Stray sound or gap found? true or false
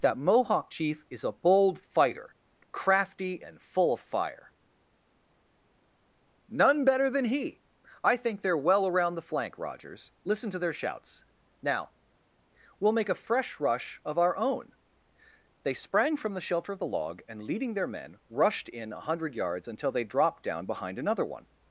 false